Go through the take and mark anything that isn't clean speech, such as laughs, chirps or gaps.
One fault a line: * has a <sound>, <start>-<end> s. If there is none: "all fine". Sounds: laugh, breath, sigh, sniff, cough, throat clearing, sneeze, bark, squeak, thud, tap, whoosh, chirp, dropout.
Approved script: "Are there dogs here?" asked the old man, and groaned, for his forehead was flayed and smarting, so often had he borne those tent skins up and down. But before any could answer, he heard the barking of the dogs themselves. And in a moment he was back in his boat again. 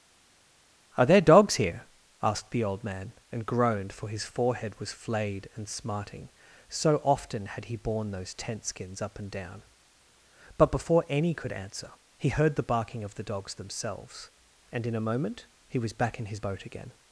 all fine